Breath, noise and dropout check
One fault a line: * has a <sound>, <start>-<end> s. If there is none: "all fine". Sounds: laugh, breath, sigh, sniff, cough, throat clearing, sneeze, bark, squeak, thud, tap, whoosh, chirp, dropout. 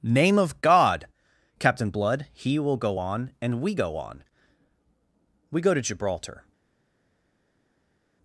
all fine